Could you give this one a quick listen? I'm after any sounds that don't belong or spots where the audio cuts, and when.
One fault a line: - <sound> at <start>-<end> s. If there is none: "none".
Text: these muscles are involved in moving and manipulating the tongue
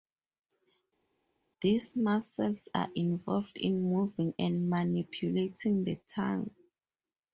none